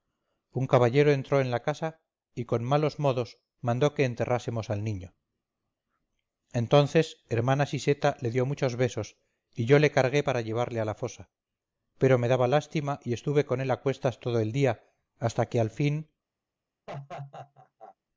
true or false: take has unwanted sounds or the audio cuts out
true